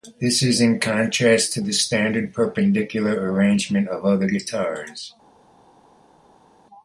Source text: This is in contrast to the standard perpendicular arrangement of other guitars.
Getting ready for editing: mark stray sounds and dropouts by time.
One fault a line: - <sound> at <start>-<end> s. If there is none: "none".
none